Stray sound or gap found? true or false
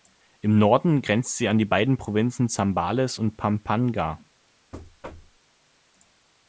true